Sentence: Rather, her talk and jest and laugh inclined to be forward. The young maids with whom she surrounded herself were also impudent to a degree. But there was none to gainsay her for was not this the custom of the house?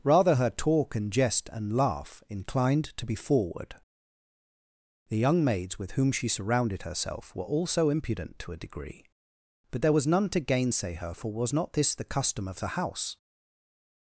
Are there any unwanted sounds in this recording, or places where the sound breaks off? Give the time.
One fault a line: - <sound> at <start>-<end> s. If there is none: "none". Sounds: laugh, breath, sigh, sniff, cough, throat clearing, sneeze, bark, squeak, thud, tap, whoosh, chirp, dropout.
none